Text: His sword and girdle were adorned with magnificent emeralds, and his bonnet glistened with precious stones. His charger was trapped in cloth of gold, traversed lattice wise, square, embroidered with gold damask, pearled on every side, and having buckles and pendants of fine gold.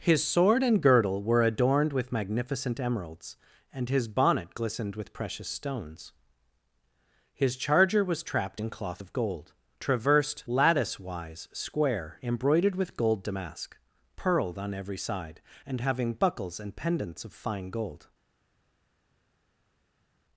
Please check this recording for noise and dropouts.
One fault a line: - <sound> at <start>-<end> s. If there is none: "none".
none